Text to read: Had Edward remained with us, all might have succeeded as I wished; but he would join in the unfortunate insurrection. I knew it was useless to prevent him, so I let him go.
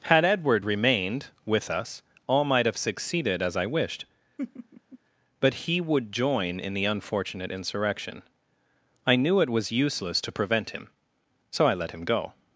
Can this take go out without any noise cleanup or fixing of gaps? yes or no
no